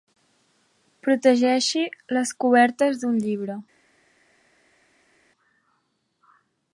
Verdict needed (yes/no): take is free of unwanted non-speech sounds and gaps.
yes